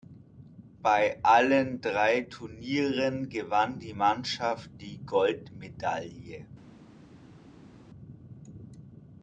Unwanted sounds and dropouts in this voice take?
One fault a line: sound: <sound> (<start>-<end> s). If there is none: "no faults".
no faults